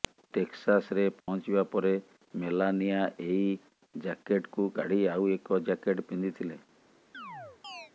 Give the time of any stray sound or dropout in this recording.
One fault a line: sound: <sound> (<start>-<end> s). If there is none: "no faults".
sound: dropout (1.2-1.3 s)
sound: chirp (7.1-7.9 s)